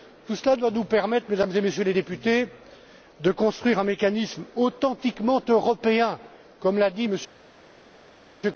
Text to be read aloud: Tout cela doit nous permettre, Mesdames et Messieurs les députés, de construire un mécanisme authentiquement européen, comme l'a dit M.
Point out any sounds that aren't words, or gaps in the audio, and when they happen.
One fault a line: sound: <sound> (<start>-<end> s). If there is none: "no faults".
no faults